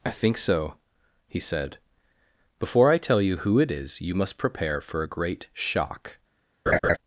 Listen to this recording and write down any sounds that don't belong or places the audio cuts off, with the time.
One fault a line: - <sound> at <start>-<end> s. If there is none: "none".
- laugh at 6.7-7.0 s